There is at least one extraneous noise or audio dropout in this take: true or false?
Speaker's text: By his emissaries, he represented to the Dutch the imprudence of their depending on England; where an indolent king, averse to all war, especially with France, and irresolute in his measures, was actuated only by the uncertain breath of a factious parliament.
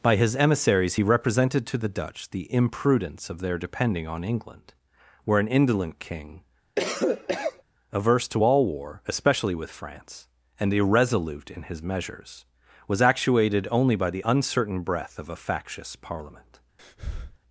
true